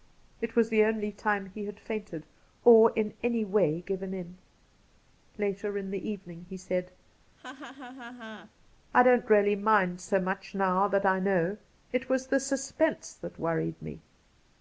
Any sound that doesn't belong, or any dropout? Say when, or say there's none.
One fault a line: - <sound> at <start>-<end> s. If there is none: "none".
- laugh at 7.4-8.5 s